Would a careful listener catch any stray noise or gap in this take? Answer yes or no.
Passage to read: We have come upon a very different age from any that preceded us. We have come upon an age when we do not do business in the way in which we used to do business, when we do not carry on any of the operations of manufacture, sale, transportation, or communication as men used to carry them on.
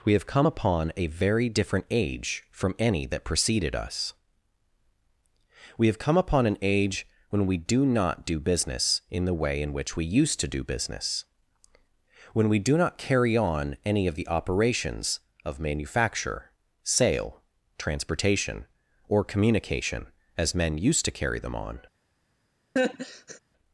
yes